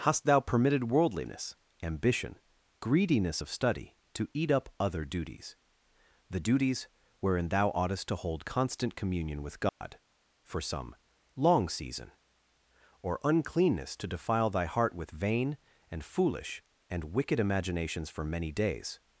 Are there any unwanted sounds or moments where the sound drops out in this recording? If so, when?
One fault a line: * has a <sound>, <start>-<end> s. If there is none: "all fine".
* has a dropout, 9.7-9.8 s